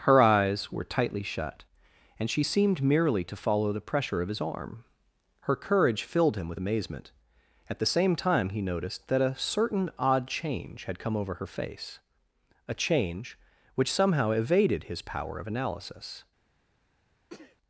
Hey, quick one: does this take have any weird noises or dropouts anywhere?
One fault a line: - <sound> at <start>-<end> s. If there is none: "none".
- sneeze at 17.3-17.6 s